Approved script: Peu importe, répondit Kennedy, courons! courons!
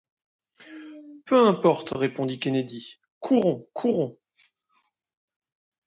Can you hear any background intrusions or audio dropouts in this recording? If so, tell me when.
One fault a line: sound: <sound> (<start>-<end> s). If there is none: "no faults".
no faults